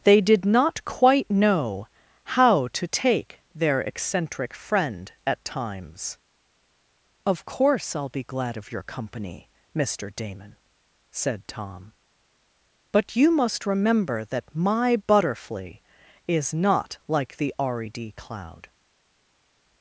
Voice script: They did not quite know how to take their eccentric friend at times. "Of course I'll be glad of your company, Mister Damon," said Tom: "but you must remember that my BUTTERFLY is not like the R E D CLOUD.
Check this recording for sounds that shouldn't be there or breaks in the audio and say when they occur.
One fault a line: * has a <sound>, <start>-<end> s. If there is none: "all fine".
all fine